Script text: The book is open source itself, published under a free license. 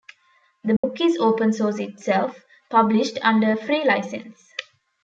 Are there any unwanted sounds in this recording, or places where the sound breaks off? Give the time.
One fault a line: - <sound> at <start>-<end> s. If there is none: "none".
- dropout at 0.8-0.8 s